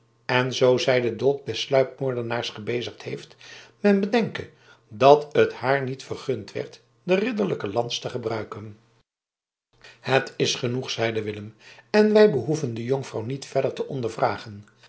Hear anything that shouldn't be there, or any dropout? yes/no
no